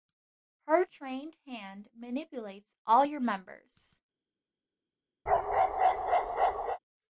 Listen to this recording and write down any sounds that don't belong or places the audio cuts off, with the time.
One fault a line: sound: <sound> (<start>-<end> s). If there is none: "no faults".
sound: bark (5.3-6.8 s)